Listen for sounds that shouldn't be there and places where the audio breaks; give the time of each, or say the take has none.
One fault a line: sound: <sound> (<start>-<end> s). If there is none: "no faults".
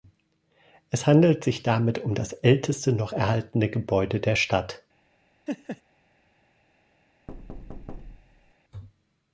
sound: laugh (5.5-5.8 s)
sound: thud (7.3-8.5 s)